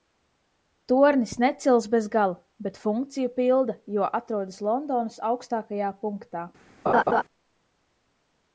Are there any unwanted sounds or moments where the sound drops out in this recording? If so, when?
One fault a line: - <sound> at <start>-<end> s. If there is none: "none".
- laugh at 6.9-7.2 s